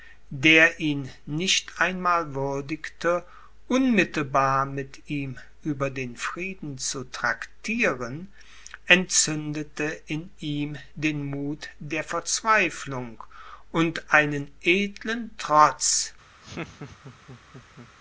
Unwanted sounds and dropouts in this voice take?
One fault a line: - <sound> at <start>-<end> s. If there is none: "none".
- laugh at 16.4-17.9 s